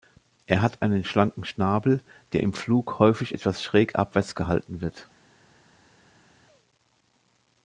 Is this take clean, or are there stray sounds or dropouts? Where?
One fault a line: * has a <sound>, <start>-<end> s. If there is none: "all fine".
all fine